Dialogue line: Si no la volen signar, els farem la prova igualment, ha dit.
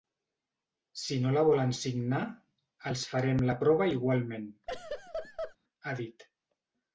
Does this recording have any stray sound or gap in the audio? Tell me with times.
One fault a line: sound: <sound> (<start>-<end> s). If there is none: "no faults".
sound: laugh (4.7-5.6 s)